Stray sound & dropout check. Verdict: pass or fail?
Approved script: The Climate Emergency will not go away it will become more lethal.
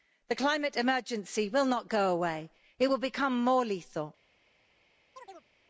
fail